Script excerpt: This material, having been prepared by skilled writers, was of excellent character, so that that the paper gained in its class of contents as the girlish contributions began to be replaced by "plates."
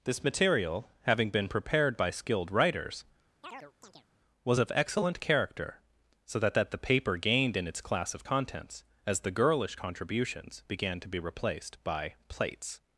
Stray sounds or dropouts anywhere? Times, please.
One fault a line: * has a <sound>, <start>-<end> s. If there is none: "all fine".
* has a chirp, 3.4-4.1 s